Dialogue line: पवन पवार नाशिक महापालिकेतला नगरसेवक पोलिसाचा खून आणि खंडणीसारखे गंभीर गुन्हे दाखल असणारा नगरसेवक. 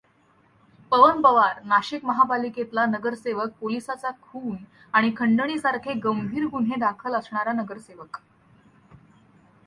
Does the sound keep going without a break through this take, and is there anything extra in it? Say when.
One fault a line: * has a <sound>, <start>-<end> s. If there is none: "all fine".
all fine